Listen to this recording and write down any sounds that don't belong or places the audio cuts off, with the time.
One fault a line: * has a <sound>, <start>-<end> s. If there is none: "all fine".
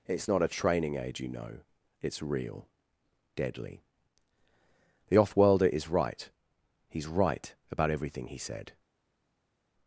all fine